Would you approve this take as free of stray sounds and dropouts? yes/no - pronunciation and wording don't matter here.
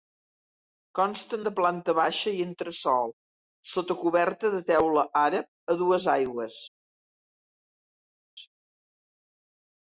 yes